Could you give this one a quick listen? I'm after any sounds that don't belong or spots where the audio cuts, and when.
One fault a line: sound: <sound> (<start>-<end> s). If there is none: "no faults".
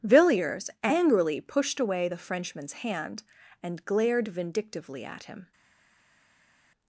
no faults